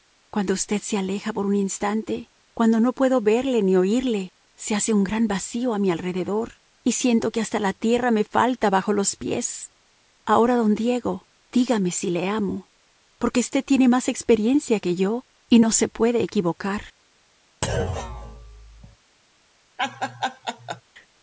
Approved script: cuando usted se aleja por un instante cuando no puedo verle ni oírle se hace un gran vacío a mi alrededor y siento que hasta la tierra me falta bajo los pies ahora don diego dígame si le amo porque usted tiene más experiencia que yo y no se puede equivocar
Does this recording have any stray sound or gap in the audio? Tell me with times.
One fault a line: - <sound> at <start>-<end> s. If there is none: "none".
- thud at 17.6-19.0 s
- laugh at 19.8-20.8 s